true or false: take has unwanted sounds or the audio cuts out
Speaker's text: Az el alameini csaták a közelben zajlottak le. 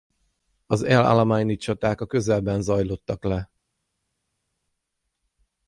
false